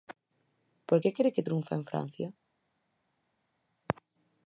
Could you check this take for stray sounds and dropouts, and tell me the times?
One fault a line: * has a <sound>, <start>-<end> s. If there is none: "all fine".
all fine